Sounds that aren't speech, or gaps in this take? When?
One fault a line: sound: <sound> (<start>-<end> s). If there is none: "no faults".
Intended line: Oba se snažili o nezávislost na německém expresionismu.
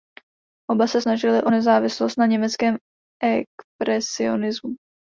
no faults